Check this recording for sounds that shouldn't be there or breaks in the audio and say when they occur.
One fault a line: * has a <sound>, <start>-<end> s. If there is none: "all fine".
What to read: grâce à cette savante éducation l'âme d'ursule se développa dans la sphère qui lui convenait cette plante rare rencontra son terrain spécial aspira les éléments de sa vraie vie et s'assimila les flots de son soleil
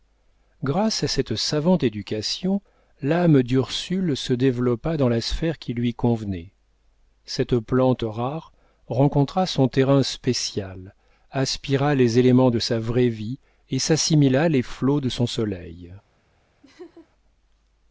* has a laugh, 16.6-17.1 s